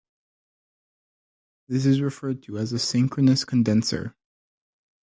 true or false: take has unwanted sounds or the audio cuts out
false